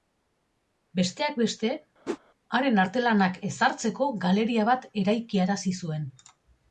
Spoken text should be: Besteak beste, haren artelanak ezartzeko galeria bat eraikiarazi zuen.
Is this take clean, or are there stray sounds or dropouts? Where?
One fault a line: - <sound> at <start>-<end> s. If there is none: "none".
- whoosh at 2.1-2.2 s